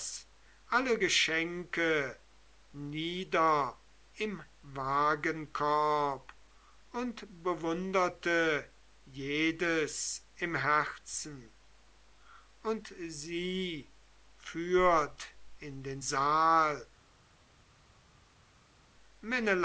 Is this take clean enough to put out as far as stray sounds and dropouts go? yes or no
yes